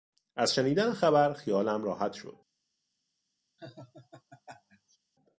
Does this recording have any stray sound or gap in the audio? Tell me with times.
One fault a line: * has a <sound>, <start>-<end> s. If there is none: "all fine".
* has a laugh, 3.6-5.0 s